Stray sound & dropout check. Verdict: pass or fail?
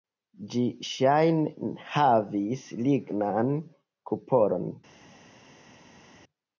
pass